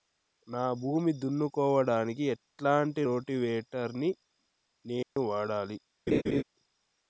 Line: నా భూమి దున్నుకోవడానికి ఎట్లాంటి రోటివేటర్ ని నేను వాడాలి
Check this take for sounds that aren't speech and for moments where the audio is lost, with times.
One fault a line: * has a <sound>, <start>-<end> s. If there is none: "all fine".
* has a dropout, 5.0-5.2 s
* has a laugh, 6.1-6.4 s